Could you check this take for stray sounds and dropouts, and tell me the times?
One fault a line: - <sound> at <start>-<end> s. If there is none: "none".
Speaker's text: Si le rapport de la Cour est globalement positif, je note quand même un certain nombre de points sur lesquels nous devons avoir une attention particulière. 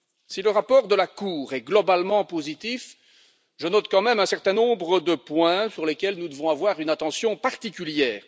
none